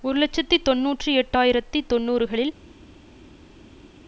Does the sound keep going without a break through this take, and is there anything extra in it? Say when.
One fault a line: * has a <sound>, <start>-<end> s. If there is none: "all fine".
all fine